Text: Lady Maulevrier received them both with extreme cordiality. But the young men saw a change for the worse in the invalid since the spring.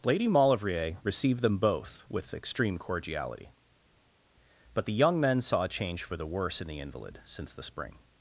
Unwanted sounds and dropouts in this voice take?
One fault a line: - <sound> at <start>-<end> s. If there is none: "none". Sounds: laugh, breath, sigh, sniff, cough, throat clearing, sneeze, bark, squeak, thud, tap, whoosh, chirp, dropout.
none